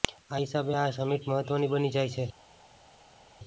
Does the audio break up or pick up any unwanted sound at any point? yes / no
no